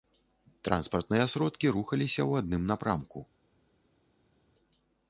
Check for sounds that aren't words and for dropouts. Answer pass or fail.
pass